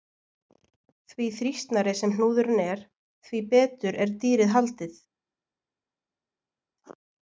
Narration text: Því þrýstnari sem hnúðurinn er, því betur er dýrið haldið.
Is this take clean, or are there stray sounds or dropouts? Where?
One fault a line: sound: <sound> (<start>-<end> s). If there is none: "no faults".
no faults